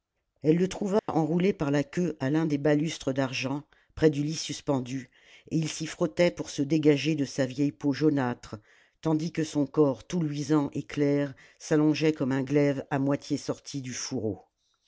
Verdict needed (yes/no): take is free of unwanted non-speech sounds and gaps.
no